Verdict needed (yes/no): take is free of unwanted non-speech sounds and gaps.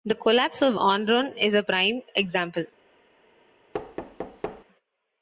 no